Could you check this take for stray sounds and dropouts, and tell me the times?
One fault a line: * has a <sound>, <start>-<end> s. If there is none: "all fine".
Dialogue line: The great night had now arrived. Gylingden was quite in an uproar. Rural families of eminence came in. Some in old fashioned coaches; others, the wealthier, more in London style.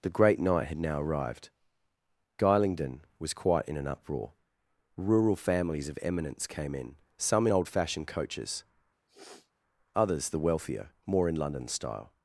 * has a sniff, 9.1-9.5 s